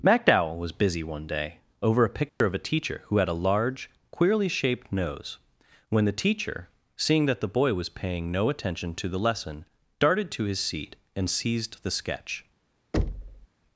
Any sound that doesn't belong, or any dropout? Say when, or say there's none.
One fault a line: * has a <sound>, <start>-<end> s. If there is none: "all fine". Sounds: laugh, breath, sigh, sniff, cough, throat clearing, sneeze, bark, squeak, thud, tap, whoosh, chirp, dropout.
* has a dropout, 2.3-2.4 s
* has a thud, 12.9-13.5 s